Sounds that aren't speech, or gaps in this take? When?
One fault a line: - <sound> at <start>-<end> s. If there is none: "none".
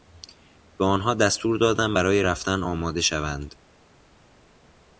none